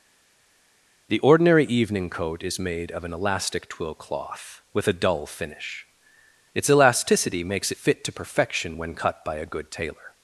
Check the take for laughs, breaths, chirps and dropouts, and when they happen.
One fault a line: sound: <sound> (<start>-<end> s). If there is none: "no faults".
no faults